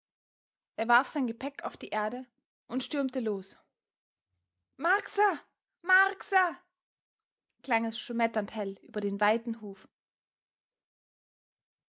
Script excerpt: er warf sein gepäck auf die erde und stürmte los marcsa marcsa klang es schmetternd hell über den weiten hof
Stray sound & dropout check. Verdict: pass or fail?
pass